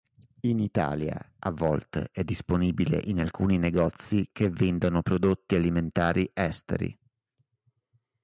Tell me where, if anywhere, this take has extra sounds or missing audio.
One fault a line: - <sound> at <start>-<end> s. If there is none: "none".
none